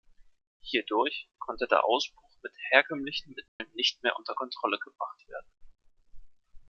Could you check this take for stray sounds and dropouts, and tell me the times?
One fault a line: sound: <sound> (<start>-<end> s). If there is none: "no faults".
sound: dropout (3.5-3.6 s)